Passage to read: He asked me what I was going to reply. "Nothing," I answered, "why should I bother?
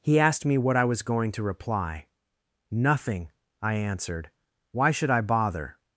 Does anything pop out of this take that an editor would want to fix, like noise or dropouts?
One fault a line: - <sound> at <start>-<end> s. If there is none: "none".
none